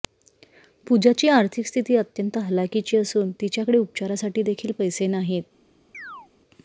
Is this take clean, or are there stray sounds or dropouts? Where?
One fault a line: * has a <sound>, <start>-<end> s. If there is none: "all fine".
* has a chirp, 5.9-6.3 s